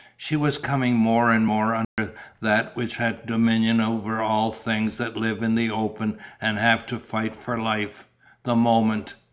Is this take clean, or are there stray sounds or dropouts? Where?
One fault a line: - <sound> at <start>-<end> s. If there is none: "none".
- dropout at 1.8-2.0 s